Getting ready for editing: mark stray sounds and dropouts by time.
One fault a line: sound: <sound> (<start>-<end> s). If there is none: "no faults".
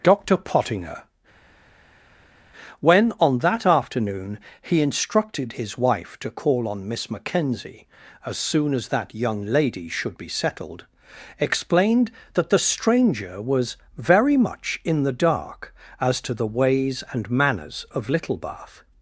no faults